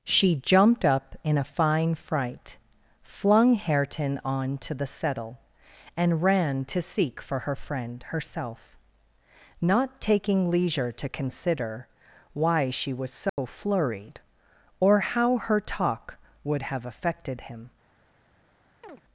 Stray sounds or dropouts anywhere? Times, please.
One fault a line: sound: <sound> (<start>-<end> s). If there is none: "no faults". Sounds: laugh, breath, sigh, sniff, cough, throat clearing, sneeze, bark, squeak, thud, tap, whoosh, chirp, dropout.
sound: dropout (13.3-13.4 s)
sound: chirp (18.8-19.0 s)